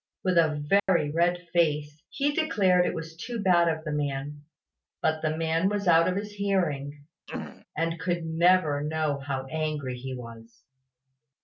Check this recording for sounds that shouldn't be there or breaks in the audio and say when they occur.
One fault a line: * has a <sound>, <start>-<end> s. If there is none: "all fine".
* has a dropout, 0.8-0.9 s
* has a throat clearing, 7.3-7.7 s